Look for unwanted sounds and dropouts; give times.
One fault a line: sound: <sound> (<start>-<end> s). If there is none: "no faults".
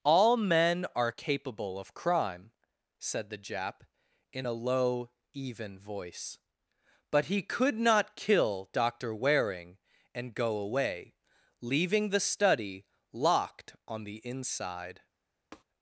sound: tap (15.5-15.6 s)